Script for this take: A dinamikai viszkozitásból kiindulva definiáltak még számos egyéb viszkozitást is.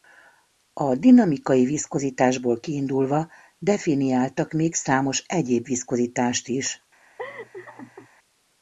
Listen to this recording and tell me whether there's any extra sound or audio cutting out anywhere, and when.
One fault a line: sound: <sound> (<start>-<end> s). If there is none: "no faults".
sound: laugh (7.2-8.1 s)